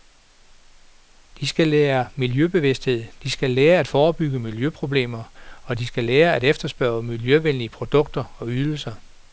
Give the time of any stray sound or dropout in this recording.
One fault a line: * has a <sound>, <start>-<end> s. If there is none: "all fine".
all fine